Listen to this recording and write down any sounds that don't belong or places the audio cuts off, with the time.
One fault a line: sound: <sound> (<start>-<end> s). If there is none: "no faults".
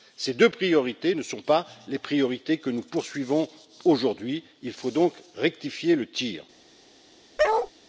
sound: bark (7.4-7.7 s)